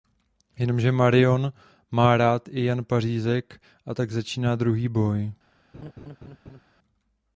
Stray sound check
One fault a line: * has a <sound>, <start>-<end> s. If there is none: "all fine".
* has a laugh, 5.7-6.6 s